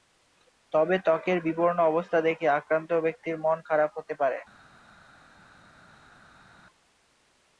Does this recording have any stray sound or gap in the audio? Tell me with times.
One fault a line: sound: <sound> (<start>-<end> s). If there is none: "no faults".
no faults